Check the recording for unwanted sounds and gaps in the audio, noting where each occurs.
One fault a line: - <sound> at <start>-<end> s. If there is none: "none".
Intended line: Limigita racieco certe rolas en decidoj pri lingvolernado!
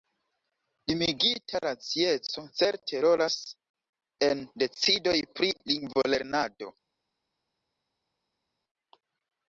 none